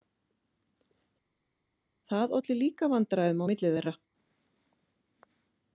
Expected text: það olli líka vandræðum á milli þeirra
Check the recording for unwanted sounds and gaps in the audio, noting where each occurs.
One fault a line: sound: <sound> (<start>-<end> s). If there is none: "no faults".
no faults